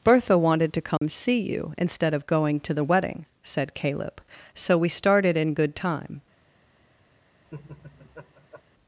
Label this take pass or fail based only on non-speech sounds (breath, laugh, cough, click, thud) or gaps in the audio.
fail